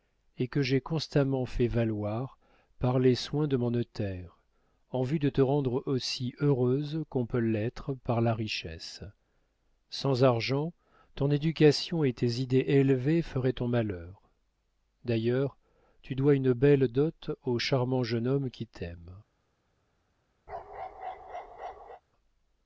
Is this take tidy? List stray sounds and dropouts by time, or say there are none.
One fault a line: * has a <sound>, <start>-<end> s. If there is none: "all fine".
* has a bark, 20.5-22.0 s